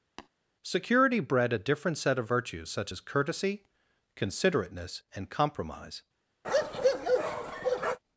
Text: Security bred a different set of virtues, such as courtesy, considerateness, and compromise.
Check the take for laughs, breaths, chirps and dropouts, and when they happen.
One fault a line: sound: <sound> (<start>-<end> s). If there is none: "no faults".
sound: tap (0.2-0.3 s)
sound: bark (6.4-8.0 s)